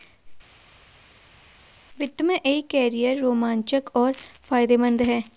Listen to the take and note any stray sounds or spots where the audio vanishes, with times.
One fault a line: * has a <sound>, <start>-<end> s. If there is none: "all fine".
all fine